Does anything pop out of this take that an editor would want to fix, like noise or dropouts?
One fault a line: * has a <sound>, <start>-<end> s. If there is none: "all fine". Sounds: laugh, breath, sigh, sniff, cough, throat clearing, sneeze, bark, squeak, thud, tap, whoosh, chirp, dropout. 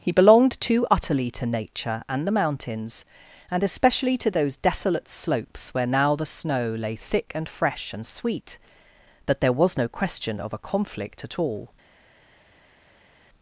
all fine